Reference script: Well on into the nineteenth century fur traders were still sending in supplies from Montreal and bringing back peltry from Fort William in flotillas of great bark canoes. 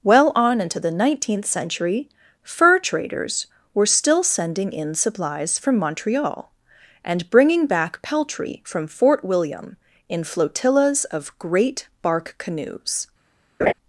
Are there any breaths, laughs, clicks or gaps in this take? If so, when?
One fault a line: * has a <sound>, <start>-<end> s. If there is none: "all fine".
* has a laugh, 13.6-13.7 s